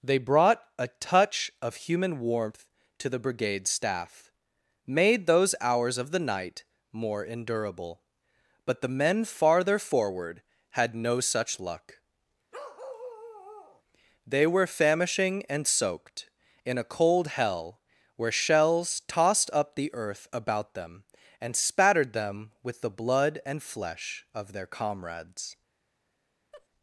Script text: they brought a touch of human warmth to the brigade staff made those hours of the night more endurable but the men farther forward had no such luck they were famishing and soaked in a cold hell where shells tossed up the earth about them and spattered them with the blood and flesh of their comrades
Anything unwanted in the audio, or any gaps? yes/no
yes